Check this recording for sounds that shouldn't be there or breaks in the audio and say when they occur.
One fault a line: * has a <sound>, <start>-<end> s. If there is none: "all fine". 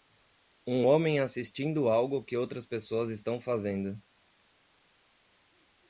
all fine